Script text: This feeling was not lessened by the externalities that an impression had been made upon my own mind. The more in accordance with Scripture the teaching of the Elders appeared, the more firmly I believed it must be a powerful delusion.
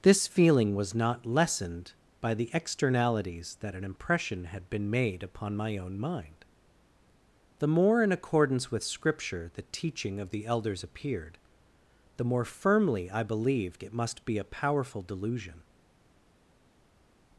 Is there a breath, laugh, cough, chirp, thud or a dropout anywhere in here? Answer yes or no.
no